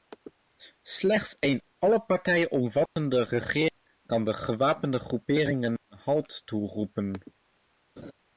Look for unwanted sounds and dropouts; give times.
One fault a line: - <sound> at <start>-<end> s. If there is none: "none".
- dropout at 2.9-3.0 s
- laugh at 8.0-8.1 s